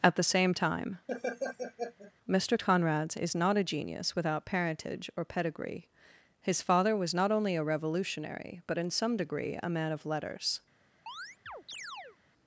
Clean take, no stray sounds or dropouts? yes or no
no